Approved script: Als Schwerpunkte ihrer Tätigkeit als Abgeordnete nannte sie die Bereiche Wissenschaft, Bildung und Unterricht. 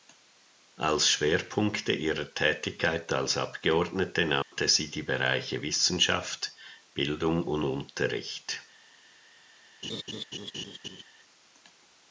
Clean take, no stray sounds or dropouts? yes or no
no